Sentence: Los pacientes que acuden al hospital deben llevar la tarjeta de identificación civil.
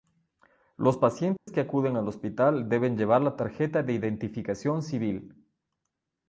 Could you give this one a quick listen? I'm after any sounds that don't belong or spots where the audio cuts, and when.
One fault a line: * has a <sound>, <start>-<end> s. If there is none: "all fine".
* has a dropout, 1.4-1.5 s